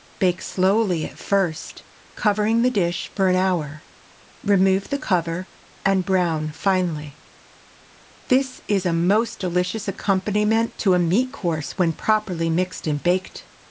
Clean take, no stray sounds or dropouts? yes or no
yes